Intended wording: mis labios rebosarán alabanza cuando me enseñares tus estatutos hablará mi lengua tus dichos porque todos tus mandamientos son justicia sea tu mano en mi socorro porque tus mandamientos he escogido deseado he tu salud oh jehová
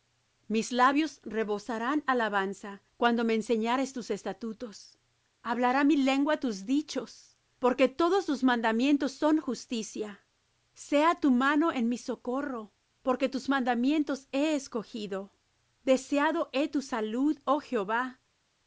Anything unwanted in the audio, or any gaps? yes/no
no